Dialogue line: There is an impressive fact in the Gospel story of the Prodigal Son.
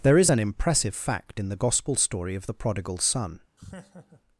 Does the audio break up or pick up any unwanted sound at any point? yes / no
yes